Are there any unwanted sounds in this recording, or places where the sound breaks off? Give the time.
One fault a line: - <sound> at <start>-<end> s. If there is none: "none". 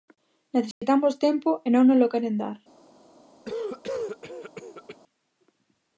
- dropout at 0.7-0.8 s
- cough at 3.4-5.0 s